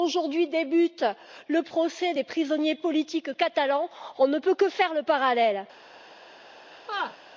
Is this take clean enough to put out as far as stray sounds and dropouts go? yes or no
no